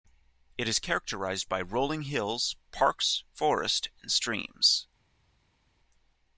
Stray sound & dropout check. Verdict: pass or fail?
pass